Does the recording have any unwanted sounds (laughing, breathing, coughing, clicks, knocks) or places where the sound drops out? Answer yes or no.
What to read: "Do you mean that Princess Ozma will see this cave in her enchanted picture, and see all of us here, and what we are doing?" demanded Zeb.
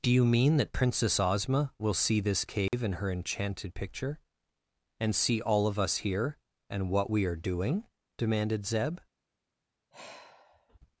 yes